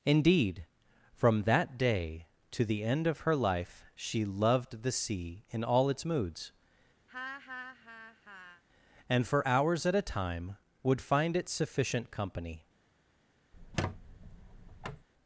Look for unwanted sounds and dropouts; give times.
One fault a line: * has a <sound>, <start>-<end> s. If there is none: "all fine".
* has a laugh, 7.1-8.6 s
* has a squeak, 13.5-15.1 s